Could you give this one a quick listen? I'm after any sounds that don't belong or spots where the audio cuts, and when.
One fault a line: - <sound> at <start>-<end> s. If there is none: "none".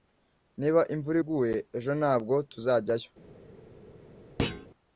- thud at 4.4-4.7 s